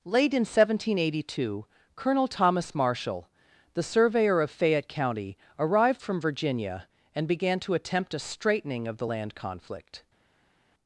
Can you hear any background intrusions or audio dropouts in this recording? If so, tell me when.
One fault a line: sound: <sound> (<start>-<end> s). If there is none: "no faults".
no faults